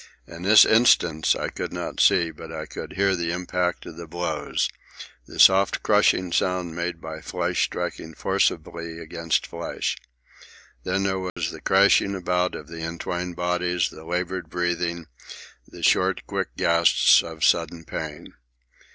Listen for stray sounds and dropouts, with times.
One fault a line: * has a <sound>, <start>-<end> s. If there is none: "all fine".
* has a dropout, 11.3-11.4 s